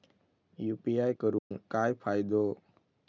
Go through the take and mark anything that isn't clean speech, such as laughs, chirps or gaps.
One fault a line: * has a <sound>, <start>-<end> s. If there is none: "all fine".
* has a dropout, 1.4-1.5 s